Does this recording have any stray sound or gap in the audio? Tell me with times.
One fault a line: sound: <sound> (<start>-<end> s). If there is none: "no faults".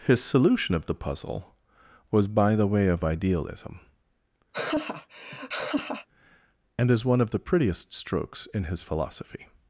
sound: laugh (4.5-6.1 s)